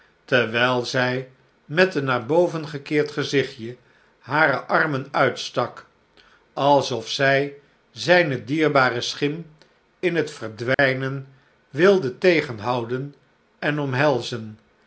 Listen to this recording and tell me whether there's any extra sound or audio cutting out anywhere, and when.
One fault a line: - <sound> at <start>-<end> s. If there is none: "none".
- dropout at 10.7-10.8 s